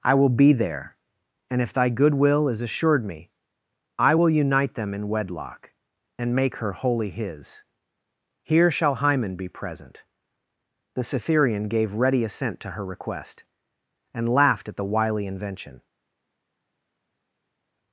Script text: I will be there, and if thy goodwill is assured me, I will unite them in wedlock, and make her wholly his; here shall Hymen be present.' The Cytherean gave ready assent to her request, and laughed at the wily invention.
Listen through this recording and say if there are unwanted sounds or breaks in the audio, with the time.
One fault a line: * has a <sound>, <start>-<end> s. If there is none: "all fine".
all fine